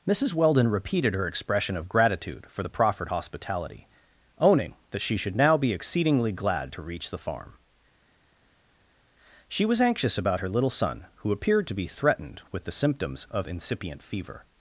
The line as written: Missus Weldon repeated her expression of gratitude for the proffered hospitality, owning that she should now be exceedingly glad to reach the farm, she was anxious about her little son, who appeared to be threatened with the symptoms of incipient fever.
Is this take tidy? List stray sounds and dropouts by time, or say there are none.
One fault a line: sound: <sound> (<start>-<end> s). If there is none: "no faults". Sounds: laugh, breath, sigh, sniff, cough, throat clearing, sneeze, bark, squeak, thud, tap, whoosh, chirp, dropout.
no faults